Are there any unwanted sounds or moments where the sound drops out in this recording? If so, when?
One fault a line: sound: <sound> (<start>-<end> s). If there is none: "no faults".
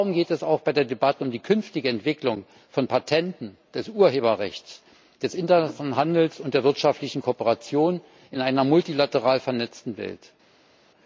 no faults